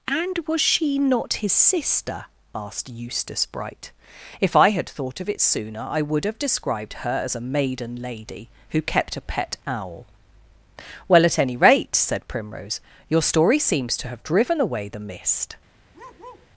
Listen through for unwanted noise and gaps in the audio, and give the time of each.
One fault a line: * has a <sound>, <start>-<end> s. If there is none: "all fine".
* has a bark, 15.9-16.5 s